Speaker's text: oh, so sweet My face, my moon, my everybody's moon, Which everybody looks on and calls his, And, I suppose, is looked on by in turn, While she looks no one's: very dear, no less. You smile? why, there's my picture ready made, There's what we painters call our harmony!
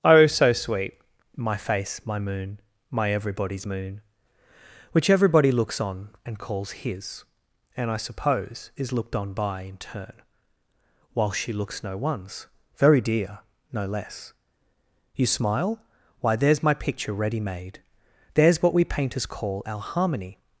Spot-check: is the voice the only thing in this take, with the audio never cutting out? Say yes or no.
yes